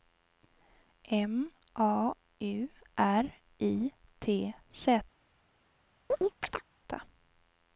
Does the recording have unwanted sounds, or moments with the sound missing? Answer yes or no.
yes